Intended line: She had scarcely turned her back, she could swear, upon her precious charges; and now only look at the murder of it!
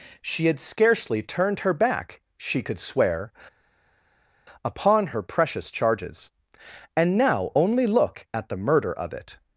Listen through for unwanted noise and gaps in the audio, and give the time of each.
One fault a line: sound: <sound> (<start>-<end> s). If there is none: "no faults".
no faults